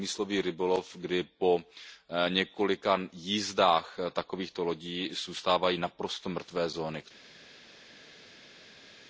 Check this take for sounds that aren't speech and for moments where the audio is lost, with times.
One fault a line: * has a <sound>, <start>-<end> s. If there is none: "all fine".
all fine